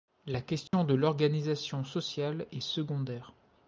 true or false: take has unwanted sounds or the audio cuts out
true